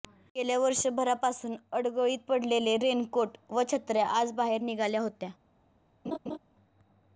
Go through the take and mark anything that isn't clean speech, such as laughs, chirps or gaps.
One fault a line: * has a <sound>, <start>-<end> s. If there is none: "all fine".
* has a laugh, 6.0-6.4 s